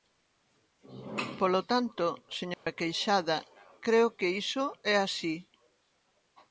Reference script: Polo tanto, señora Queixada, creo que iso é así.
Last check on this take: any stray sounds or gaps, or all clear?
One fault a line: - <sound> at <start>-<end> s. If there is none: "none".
- dropout at 2.5-2.7 s